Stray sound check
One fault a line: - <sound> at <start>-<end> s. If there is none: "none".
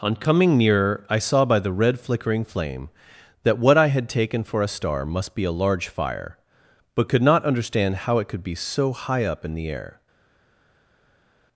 none